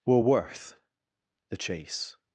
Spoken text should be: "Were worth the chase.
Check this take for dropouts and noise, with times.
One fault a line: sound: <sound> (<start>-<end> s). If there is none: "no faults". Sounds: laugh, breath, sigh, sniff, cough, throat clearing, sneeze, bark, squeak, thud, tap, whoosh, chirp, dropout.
no faults